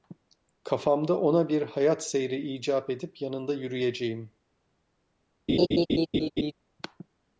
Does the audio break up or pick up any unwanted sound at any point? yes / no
yes